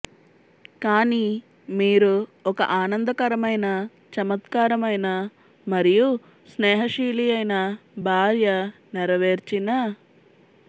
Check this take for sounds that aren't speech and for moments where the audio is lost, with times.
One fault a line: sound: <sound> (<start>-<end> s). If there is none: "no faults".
no faults